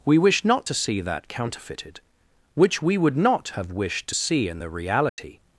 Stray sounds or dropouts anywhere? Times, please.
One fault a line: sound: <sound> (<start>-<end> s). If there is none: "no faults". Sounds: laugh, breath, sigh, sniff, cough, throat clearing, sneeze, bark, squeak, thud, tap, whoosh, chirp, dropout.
sound: dropout (5.1-5.2 s)